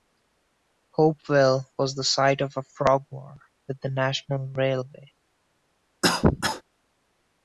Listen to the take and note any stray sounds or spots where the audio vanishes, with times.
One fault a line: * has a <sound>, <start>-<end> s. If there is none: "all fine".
* has a cough, 6.0-6.6 s